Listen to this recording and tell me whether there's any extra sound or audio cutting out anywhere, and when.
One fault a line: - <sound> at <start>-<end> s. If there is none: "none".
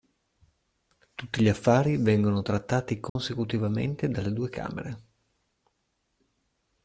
- dropout at 3.1-3.2 s